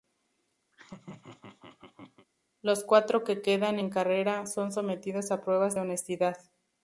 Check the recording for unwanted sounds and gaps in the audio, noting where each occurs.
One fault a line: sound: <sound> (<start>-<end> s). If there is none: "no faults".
sound: laugh (0.7-2.3 s)